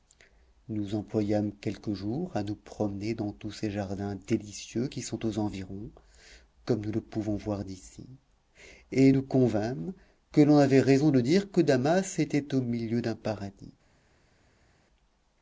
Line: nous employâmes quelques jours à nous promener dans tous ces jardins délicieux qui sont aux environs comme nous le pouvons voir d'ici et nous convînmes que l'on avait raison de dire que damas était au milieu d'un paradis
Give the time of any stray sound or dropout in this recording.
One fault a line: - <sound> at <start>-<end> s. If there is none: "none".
none